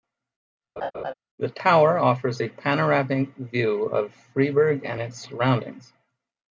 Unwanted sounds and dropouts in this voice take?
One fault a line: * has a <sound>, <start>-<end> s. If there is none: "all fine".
* has a laugh, 0.8-1.1 s